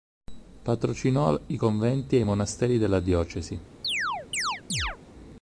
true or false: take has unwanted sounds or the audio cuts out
true